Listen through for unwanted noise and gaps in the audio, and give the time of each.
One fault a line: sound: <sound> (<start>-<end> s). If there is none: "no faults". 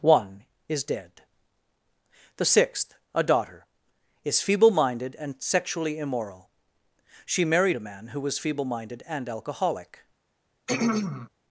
sound: throat clearing (10.7-11.3 s)